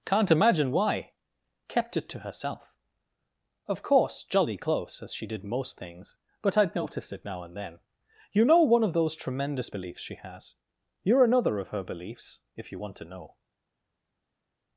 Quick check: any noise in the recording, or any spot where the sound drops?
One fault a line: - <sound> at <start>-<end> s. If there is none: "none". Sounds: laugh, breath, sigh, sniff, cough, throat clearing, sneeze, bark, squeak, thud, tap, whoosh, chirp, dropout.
none